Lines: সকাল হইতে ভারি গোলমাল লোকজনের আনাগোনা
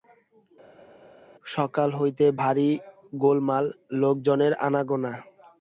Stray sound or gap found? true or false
false